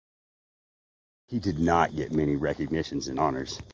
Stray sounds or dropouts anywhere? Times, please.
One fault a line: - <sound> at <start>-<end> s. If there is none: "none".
none